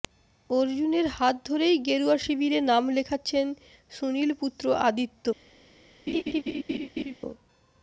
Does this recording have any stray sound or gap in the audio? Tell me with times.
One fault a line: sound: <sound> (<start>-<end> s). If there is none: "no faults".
sound: laugh (6.1-7.2 s)